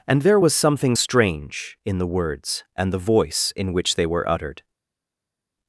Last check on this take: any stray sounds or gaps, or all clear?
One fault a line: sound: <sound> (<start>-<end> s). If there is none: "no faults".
no faults